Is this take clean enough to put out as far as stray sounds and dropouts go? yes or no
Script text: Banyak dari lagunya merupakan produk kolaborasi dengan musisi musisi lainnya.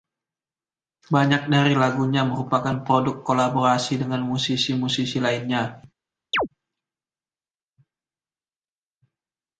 no